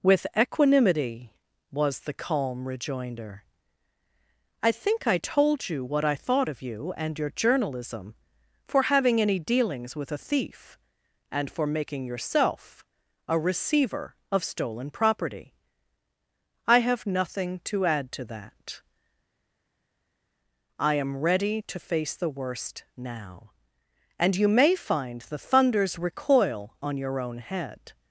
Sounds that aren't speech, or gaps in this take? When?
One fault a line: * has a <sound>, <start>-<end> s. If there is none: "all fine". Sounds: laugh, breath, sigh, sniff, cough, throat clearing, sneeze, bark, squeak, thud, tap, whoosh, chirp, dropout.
all fine